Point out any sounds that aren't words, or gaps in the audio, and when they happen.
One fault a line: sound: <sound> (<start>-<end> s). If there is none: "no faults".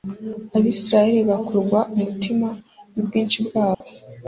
sound: dropout (3.7-3.8 s)